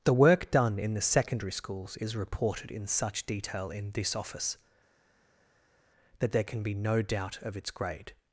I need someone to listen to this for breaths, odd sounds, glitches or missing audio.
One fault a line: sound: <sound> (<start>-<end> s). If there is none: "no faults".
no faults